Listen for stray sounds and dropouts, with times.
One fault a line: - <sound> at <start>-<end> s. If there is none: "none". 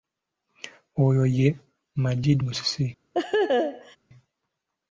- laugh at 3.1-4.0 s